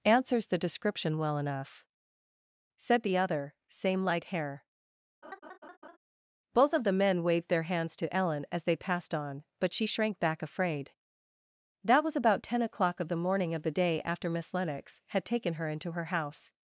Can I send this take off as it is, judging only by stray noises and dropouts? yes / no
no